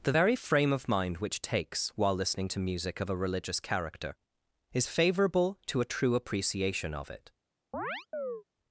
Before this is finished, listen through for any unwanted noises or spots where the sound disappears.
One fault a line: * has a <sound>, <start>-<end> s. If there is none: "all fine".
* has a chirp, 7.7-8.4 s